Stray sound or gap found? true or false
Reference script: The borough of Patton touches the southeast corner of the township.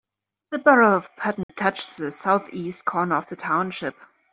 true